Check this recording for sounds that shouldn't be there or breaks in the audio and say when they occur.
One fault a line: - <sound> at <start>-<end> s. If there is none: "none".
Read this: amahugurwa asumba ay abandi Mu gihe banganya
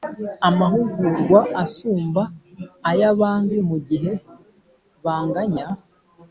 none